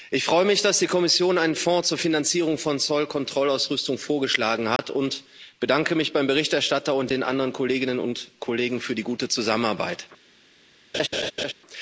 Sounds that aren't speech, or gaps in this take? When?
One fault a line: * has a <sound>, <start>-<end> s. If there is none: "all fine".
* has a dropout, 4.8-4.8 s
* has a laugh, 10.9-11.5 s